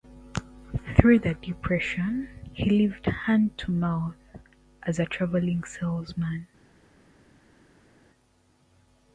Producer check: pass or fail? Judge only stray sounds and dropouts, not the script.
pass